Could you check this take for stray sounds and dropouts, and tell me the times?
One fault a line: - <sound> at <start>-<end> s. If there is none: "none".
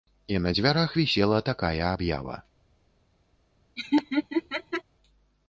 - laugh at 3.8-4.8 s